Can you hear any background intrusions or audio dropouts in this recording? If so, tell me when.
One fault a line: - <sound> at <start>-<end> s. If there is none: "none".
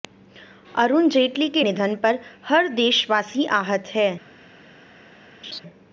- laugh at 5.4-5.6 s